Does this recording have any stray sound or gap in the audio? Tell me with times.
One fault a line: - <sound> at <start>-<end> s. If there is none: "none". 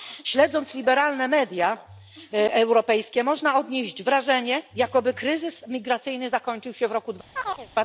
- chirp at 7.3-7.7 s